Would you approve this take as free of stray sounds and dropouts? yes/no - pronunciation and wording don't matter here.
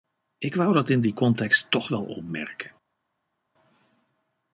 yes